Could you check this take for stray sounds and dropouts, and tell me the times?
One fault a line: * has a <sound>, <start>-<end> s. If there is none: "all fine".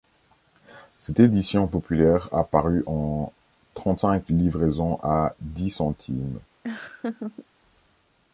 * has a laugh, 6.6-7.5 s